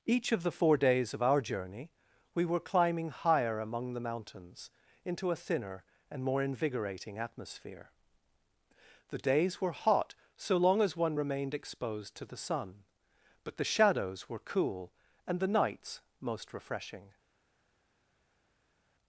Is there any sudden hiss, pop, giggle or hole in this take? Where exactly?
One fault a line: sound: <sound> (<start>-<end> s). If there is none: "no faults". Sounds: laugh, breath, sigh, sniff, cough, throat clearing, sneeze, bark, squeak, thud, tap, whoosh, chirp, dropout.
no faults